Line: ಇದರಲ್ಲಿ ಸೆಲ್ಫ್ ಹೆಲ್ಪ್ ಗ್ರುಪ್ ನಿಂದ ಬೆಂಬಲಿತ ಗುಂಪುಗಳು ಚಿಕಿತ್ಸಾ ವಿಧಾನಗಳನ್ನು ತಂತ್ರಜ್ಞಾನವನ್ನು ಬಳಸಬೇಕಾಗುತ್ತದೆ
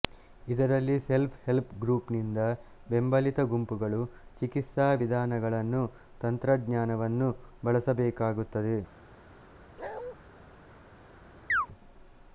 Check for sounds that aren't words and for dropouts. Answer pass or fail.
fail